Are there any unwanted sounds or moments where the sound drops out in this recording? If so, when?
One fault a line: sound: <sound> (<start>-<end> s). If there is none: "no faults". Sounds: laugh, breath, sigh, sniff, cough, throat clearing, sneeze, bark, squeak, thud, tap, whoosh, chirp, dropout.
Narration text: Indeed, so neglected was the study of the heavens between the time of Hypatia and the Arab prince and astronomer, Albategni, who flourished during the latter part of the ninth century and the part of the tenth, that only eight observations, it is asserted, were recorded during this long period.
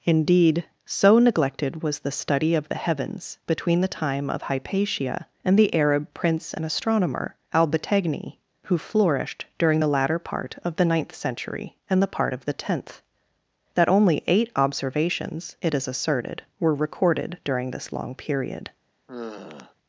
sound: sigh (19.1-19.8 s)